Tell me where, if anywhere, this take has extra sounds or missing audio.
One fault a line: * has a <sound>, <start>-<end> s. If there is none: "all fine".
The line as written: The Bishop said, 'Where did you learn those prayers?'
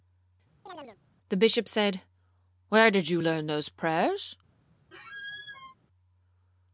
* has a chirp, 0.7-1.0 s
* has a squeak, 4.9-5.7 s